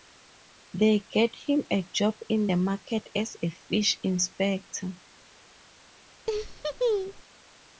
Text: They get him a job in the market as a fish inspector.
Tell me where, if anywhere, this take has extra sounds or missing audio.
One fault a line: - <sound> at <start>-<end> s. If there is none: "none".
- laugh at 6.3-7.2 s